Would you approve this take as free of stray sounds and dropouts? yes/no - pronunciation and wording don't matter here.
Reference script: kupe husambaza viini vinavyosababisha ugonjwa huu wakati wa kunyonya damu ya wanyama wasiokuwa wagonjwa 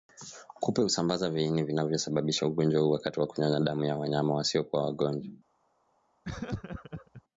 no